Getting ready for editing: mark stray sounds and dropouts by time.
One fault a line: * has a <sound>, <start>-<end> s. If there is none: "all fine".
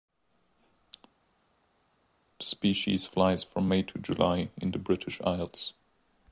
all fine